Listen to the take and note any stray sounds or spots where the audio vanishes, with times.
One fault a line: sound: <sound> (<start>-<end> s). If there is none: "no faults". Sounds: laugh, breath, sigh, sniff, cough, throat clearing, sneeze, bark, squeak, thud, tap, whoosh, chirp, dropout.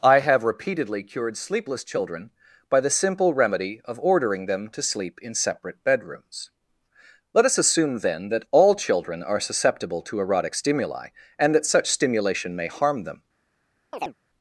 sound: chirp (13.9-14.1 s)